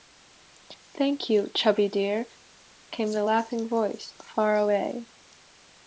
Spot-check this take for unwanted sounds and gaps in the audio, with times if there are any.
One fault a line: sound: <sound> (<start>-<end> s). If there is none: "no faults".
no faults